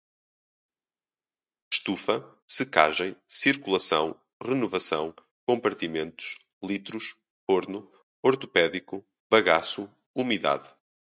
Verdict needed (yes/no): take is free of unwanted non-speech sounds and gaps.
yes